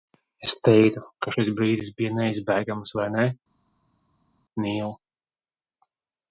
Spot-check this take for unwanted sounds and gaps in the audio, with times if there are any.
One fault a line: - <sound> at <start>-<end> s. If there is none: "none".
none